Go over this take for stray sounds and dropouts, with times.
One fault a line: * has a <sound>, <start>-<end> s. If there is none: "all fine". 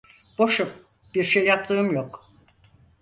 all fine